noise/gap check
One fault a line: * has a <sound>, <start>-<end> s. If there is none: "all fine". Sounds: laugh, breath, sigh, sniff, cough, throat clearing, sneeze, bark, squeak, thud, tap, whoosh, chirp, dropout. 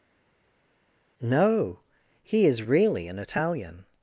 all fine